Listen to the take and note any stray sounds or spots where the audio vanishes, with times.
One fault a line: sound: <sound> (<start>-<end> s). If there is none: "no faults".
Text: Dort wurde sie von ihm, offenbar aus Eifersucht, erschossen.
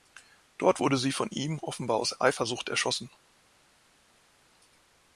no faults